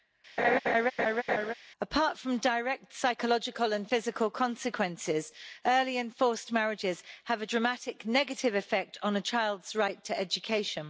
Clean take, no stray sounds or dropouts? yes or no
no